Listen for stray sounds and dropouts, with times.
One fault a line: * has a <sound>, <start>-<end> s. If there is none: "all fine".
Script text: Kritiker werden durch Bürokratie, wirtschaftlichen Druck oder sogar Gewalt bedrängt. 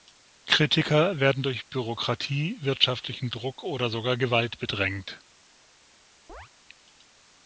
* has a chirp, 6.3-6.5 s